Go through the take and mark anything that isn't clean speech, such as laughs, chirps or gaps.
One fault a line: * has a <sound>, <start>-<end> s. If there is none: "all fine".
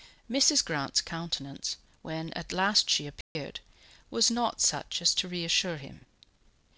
* has a dropout, 3.2-3.4 s